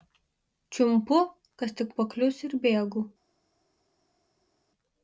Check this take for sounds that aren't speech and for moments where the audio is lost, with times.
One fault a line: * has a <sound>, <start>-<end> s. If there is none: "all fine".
all fine